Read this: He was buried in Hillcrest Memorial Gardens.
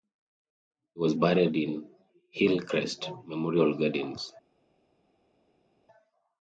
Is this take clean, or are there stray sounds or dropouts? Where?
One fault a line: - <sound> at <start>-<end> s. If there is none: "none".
none